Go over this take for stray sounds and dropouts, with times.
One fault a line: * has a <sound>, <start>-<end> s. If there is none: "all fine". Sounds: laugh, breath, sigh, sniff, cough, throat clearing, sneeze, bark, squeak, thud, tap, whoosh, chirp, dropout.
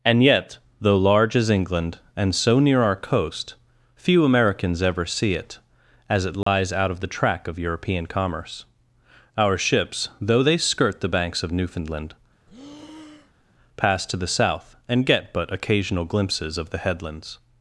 * has a dropout, 6.4-6.5 s
* has a breath, 12.5-13.5 s